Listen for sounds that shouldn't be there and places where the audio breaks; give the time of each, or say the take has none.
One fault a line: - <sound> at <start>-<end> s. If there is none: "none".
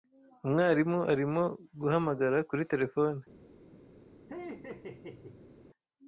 - laugh at 4.3-5.6 s